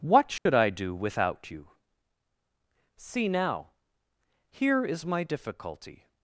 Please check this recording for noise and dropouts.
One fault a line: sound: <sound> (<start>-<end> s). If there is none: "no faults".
sound: dropout (0.4-0.5 s)